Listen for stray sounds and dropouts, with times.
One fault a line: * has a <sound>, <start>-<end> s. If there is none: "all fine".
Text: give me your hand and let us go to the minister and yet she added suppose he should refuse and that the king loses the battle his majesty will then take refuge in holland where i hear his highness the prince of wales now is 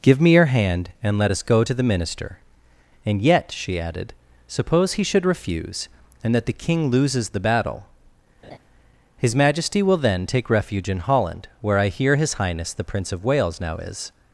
* has a laugh, 8.4-8.6 s